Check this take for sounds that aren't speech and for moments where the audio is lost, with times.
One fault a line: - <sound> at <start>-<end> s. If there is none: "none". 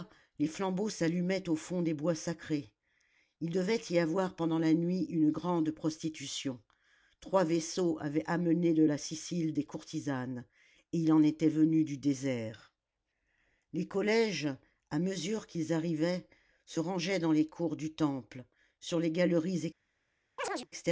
- chirp at 20.4-20.7 s